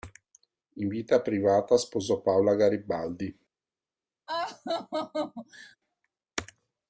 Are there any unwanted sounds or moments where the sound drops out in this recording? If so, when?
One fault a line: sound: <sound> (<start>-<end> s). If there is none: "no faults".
sound: laugh (4.3-5.8 s)